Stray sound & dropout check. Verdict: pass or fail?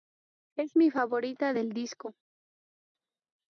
pass